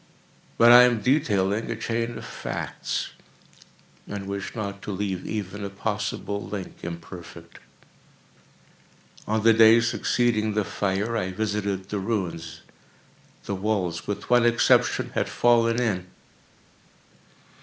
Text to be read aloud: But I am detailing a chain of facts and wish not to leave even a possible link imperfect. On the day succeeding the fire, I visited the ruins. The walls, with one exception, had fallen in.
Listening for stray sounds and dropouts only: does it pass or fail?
pass